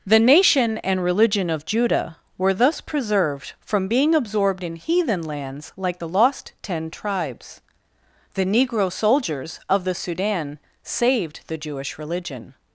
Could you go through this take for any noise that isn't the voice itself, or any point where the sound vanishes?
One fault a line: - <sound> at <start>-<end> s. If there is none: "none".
none